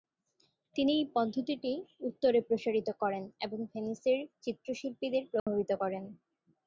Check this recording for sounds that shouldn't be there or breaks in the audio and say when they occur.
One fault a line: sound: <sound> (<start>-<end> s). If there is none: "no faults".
sound: dropout (5.4-5.5 s)